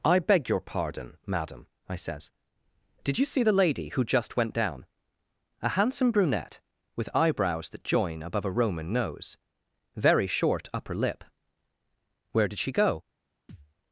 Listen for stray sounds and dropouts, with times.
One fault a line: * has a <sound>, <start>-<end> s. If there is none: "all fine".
* has a thud, 13.5-13.8 s